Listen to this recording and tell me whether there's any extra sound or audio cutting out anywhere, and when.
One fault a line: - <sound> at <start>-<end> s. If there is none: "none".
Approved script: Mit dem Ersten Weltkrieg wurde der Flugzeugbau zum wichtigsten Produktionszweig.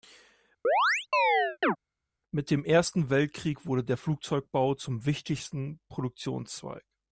- chirp at 0.6-1.8 s